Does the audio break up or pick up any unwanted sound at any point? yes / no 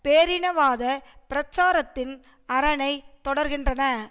no